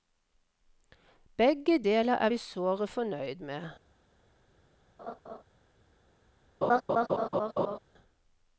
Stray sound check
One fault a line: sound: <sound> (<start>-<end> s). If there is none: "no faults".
sound: laugh (5.0-5.4 s)
sound: laugh (6.6-7.8 s)